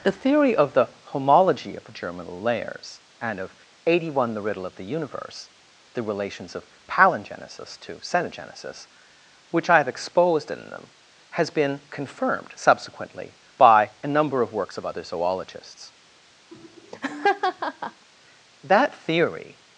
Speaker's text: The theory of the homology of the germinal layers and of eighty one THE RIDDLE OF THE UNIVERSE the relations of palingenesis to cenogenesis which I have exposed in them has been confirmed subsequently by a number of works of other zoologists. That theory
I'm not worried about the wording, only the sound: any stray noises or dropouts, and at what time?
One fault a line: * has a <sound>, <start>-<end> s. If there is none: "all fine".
* has a laugh, 16.5-18.1 s